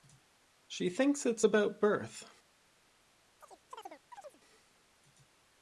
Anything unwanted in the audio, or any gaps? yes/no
yes